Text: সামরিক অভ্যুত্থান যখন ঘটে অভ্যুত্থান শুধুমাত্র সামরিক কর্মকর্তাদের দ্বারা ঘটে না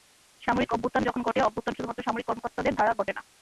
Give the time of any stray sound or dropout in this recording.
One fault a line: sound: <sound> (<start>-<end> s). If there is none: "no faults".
no faults